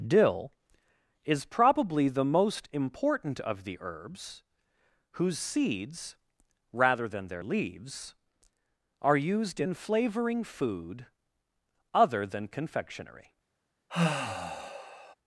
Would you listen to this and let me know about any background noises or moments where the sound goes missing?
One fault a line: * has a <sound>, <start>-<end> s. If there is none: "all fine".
* has a sigh, 13.9-15.1 s